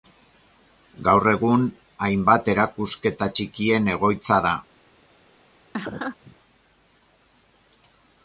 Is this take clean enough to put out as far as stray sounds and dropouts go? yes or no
no